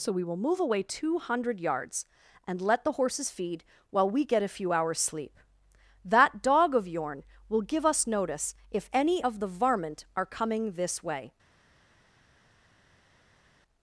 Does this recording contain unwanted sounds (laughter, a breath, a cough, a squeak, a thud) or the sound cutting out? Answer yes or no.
no